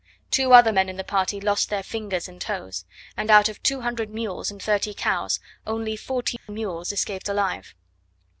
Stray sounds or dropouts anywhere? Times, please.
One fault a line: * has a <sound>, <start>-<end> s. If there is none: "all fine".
* has a dropout, 6.4-6.5 s